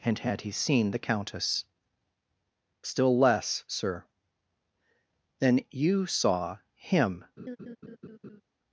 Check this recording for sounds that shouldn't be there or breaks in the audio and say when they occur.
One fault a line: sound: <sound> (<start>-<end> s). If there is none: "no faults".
sound: laugh (7.4-8.4 s)